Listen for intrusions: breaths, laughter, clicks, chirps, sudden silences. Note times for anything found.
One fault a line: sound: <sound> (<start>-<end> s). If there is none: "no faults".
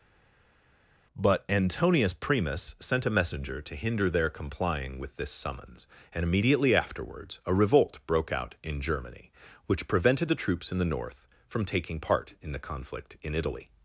no faults